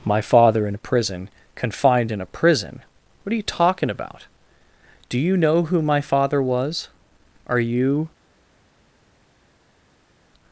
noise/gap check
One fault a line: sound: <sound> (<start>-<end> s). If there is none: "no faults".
no faults